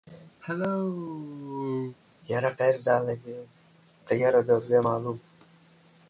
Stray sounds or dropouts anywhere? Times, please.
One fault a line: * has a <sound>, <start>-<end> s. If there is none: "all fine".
* has a cough, 0.4-2.0 s